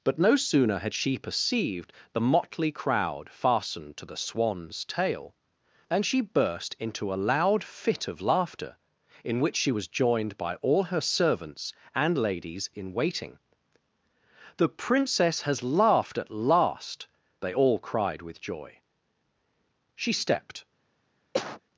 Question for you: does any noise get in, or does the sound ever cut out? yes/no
yes